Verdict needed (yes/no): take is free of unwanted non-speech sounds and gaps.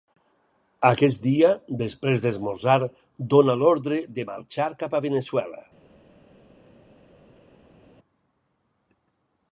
yes